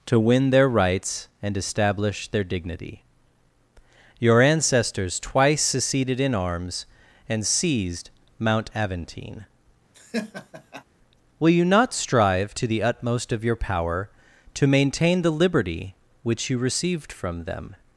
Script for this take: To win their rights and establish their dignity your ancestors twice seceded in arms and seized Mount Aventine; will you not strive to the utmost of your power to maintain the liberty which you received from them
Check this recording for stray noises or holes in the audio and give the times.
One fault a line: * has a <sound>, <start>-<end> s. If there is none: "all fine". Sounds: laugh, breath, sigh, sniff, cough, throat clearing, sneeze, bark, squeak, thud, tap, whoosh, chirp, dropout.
* has a laugh, 9.9-10.8 s